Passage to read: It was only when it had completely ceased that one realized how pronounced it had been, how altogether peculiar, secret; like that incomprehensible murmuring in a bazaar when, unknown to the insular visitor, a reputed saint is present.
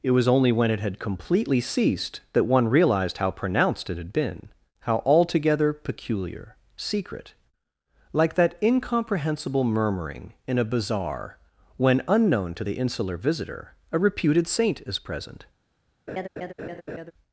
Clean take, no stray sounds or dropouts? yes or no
no